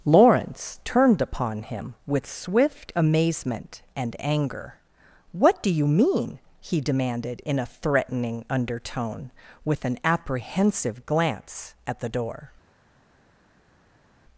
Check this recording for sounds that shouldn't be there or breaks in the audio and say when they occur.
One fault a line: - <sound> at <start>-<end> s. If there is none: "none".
none